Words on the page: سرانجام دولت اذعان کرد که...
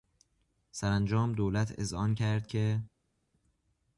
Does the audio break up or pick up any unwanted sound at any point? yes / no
no